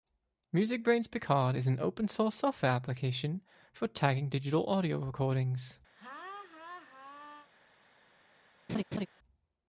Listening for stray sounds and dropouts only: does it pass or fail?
fail